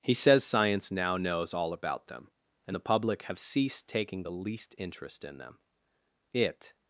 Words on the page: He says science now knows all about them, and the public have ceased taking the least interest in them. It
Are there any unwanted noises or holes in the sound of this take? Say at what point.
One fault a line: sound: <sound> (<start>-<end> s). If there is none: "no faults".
no faults